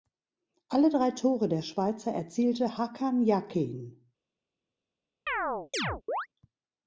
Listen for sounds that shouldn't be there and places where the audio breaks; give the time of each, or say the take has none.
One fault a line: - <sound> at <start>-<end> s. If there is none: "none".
- chirp at 5.3-6.3 s